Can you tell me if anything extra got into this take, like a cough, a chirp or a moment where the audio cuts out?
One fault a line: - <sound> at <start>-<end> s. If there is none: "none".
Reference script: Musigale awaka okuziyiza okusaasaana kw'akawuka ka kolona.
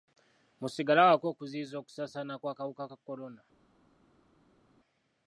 none